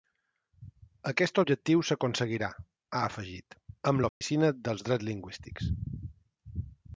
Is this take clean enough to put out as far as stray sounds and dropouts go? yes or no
no